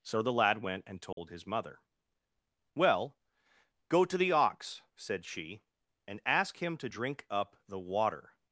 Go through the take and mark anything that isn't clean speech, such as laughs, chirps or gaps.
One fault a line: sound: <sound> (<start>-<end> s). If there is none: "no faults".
sound: dropout (1.1-1.2 s)